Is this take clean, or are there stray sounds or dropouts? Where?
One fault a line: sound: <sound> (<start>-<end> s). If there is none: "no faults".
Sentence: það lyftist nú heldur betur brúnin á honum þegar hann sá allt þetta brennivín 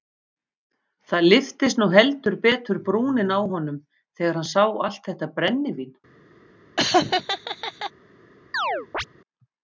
sound: laugh (6.8-7.9 s)
sound: chirp (8.5-9.1 s)